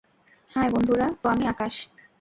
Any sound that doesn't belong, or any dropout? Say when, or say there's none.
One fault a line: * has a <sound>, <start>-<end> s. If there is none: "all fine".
all fine